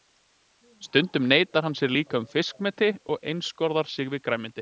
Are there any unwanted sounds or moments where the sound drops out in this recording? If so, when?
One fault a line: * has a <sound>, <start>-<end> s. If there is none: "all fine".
all fine